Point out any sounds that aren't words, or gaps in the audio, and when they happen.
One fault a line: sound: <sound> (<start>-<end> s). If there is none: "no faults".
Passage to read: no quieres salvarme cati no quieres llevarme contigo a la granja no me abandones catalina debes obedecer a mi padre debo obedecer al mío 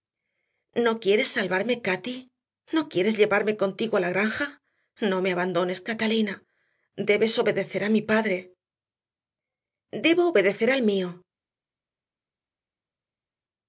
no faults